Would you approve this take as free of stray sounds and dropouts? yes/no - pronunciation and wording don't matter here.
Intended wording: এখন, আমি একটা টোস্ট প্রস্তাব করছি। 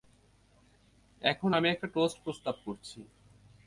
yes